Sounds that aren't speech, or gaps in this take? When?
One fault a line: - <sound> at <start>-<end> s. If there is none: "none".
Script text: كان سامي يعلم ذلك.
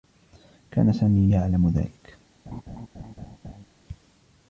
- laugh at 2.5-3.7 s